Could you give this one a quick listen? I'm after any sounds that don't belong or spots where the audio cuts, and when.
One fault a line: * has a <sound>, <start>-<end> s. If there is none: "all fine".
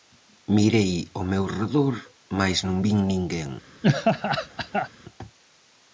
* has a laugh, 3.8-4.9 s